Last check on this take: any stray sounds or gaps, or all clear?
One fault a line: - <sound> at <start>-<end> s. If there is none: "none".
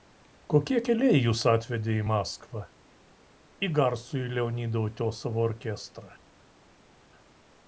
none